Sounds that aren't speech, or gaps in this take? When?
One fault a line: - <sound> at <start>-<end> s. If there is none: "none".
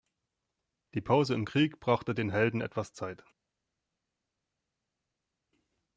none